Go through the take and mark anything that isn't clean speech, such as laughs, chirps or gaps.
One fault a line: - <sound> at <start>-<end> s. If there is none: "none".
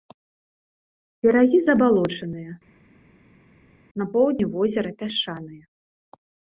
none